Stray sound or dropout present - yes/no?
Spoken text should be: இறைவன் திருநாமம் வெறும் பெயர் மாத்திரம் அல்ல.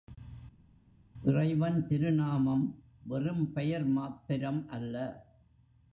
no